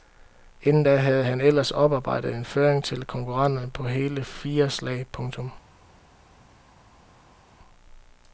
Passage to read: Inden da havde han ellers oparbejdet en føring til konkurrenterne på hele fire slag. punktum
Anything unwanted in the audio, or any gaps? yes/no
no